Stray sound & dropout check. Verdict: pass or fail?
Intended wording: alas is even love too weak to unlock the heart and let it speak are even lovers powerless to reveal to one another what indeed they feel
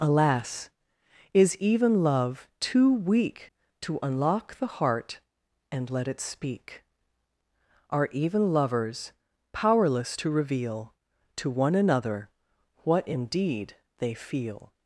pass